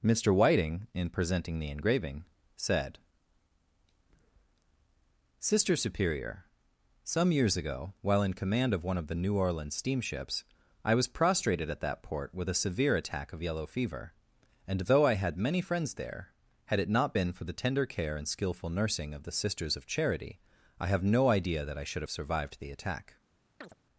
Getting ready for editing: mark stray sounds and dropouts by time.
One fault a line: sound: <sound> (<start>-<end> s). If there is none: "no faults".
sound: chirp (23.6-23.7 s)